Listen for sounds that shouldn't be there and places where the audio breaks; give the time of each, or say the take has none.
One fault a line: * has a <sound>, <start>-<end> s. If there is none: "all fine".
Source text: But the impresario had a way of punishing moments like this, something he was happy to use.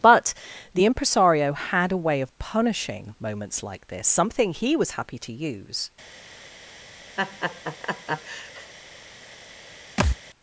* has a laugh, 7.2-8.7 s
* has a thud, 10.0-10.2 s